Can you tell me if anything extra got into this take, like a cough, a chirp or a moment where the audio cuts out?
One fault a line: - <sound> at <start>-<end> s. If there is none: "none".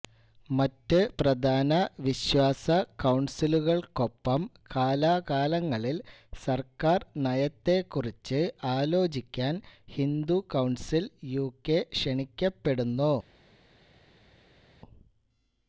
none